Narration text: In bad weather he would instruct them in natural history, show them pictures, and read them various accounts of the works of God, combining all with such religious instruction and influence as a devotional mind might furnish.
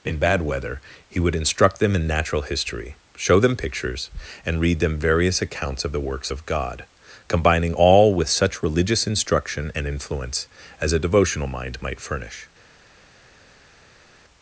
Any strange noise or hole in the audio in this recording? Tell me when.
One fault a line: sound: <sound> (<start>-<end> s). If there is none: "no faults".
no faults